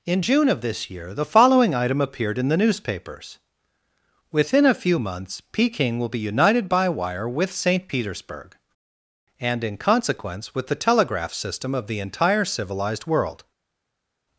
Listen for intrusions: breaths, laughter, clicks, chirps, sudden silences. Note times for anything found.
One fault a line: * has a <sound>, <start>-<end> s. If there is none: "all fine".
all fine